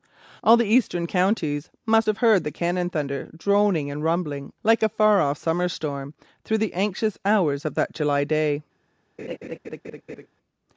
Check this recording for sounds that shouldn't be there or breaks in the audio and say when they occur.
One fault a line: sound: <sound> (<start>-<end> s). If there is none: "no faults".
sound: laugh (9.2-10.3 s)